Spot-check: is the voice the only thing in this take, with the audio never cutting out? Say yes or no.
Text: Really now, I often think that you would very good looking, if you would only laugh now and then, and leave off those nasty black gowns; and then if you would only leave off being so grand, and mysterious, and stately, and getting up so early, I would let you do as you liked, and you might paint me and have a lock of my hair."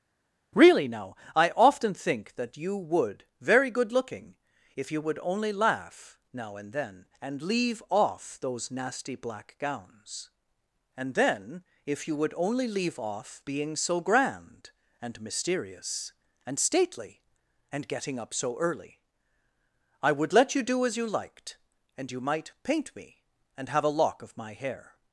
yes